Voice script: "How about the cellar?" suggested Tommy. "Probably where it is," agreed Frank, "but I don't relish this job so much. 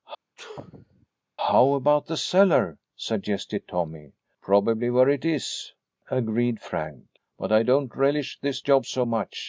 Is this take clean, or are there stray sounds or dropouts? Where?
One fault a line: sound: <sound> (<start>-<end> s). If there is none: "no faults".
sound: sneeze (0.4-1.1 s)